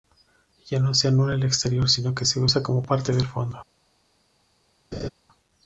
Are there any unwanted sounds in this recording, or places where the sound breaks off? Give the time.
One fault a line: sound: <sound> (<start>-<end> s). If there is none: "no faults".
sound: laugh (4.9-5.1 s)